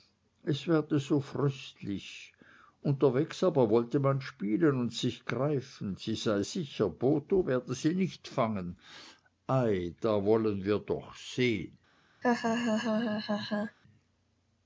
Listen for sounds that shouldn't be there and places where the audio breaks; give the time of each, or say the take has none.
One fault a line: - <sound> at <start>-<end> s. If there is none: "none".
- laugh at 12.2-13.8 s